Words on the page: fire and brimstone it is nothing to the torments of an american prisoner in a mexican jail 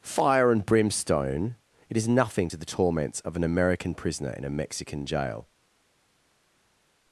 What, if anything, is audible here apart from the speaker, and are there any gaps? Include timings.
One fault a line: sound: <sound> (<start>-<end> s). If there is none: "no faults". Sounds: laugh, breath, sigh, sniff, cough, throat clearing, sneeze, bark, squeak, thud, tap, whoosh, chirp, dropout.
no faults